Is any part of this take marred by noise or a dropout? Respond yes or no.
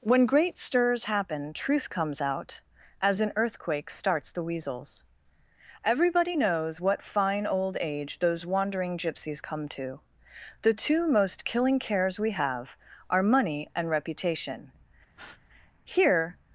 yes